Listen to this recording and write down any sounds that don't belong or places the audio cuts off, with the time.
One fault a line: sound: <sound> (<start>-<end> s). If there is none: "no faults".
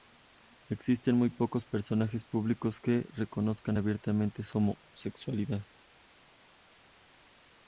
no faults